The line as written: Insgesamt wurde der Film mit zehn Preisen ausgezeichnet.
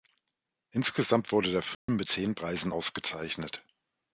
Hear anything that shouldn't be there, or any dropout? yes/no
yes